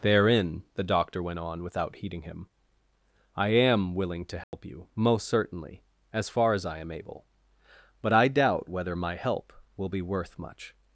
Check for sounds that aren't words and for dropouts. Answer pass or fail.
fail